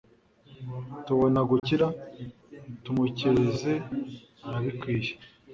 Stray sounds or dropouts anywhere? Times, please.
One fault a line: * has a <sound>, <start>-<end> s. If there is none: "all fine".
* has a dropout, 1.6-1.6 s